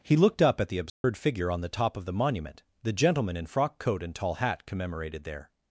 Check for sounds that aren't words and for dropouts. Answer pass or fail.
fail